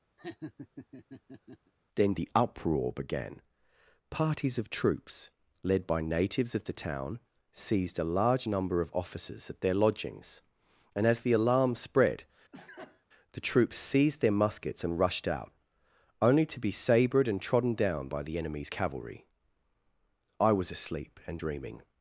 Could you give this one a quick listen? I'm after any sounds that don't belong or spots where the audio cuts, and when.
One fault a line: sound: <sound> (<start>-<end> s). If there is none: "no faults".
sound: laugh (0.2-1.7 s)
sound: sneeze (12.5-13.1 s)